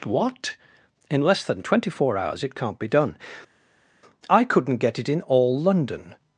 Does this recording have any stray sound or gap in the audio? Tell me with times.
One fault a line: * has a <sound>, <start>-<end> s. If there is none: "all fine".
all fine